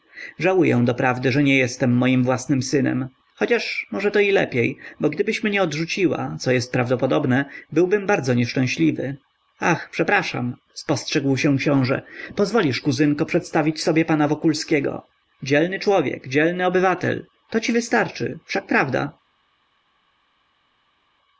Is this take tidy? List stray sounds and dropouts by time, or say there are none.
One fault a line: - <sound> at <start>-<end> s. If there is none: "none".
none